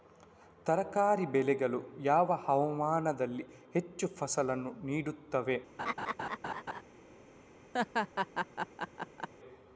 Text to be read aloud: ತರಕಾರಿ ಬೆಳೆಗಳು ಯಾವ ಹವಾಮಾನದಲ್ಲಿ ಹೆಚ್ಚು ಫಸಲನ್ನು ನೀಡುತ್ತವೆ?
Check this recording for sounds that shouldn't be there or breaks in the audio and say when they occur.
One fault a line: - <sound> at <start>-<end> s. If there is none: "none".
- laugh at 5.8-6.8 s
- laugh at 7.7-9.3 s